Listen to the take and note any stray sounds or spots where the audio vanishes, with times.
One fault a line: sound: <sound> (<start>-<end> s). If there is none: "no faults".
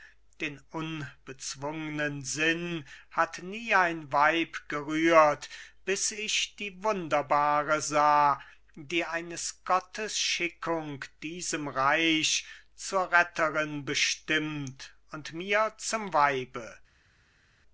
no faults